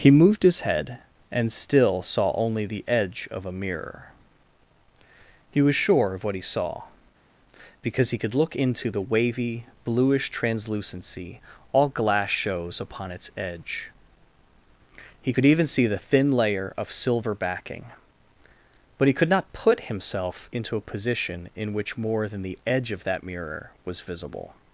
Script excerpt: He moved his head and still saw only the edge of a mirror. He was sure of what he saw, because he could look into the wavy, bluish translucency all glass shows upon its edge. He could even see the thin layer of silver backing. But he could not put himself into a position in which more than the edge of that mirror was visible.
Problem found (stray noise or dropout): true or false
false